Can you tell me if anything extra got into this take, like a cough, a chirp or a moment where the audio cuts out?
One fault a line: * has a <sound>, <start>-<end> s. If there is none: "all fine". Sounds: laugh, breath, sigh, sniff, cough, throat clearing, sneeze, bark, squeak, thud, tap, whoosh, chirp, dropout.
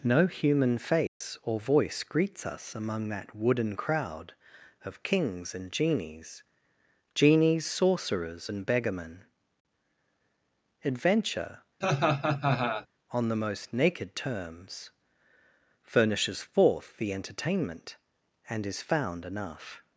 * has a dropout, 1.1-1.2 s
* has a laugh, 11.8-12.9 s